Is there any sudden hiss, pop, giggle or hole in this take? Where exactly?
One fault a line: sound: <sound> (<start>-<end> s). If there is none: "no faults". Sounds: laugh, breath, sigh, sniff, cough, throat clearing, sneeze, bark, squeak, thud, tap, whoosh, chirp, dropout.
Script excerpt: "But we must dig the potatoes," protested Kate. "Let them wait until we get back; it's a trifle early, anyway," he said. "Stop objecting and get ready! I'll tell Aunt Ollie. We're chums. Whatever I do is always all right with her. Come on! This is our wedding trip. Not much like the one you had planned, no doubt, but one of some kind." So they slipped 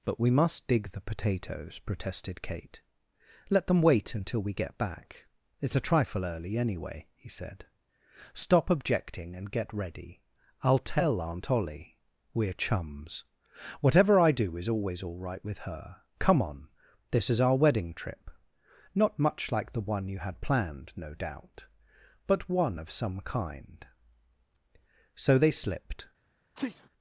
sound: sneeze (26.5-26.9 s)